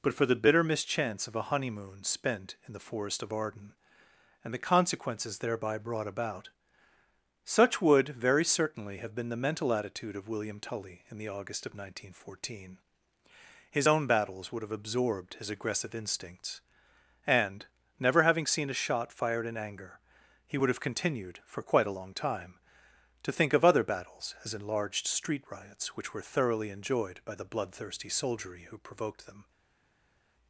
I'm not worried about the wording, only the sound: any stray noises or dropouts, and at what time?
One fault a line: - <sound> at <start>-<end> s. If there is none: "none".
none